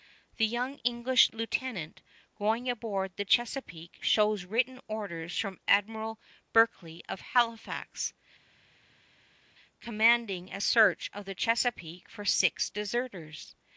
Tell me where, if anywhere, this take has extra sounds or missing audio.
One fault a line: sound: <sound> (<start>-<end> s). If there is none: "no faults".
no faults